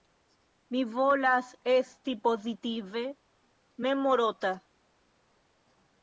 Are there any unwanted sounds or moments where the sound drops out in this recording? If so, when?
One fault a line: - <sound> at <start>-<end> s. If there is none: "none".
none